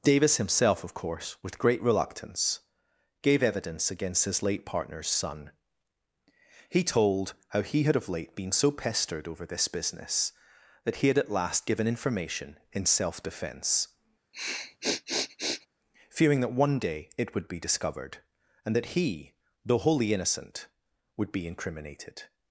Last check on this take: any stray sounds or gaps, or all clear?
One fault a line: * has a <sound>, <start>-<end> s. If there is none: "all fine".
* has a sniff, 14.3-15.7 s